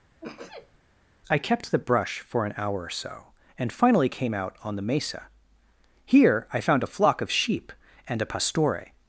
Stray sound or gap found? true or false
true